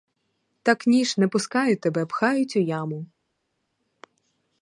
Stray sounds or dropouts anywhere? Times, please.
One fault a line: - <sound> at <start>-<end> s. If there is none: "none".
none